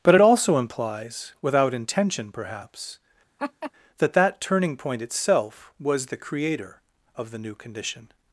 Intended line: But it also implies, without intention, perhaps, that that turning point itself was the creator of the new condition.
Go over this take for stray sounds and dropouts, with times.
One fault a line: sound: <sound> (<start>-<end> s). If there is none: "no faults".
sound: laugh (3.4-3.7 s)